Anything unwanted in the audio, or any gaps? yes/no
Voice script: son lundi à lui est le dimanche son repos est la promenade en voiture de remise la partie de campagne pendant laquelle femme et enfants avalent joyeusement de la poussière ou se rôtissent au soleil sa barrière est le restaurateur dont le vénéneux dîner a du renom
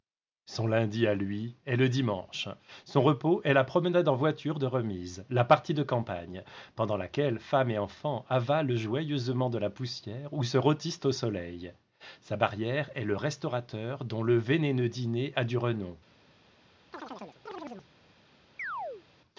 yes